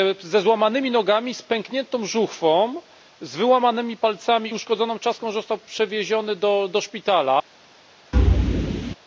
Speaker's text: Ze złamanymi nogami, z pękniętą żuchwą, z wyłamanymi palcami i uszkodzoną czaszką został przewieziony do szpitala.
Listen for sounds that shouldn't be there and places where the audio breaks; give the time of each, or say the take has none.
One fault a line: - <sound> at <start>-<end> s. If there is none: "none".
- thud at 8.1-8.9 s